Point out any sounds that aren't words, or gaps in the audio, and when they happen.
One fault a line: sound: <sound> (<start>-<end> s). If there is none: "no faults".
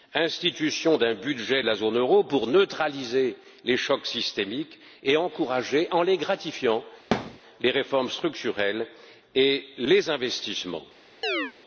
sound: thud (7.1-7.4 s)
sound: chirp (11.2-11.5 s)